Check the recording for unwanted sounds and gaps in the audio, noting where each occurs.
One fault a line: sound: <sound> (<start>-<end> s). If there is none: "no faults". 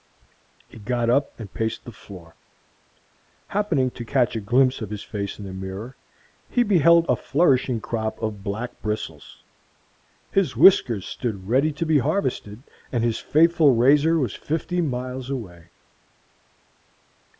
no faults